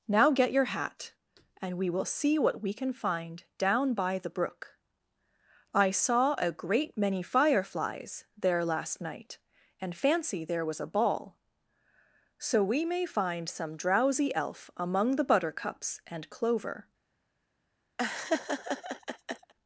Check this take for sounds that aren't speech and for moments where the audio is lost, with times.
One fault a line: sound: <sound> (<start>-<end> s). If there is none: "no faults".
sound: laugh (18.0-19.5 s)